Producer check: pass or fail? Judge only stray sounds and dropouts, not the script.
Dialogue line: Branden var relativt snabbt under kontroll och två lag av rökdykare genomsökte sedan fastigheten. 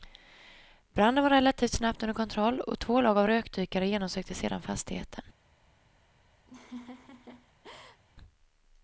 fail